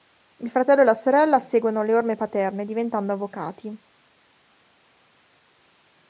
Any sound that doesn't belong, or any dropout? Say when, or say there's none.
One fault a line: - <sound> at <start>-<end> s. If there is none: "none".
none